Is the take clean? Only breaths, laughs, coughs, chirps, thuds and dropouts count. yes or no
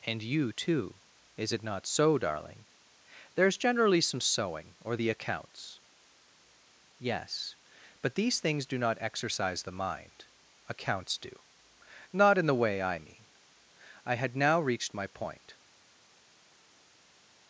yes